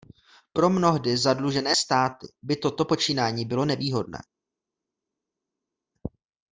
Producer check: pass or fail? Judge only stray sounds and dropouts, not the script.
pass